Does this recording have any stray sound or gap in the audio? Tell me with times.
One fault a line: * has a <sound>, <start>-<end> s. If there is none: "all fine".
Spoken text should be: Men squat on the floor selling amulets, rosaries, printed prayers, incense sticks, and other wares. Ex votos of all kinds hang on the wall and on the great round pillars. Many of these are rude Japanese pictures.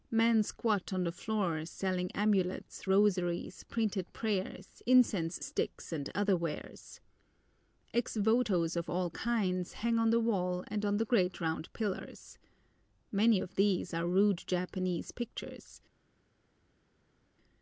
all fine